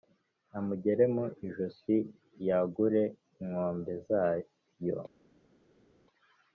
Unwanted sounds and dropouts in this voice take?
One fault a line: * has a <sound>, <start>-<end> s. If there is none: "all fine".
all fine